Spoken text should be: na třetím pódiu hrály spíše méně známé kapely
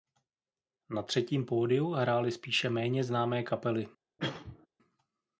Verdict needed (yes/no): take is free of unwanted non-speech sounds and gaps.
no